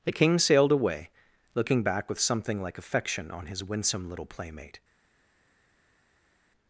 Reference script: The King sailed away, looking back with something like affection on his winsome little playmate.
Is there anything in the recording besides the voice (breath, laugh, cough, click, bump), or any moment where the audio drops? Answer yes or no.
no